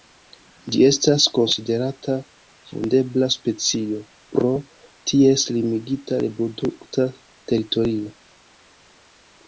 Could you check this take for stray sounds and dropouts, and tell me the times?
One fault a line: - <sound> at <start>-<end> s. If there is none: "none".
none